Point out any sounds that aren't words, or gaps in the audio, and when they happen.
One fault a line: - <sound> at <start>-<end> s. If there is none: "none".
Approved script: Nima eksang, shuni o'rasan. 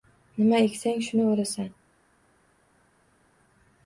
none